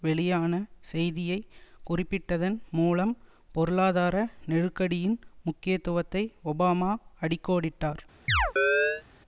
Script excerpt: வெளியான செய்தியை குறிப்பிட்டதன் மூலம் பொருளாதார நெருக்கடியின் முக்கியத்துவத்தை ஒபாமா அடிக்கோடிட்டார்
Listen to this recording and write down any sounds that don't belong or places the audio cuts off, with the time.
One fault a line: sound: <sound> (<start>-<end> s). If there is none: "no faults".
sound: chirp (8.3-9.0 s)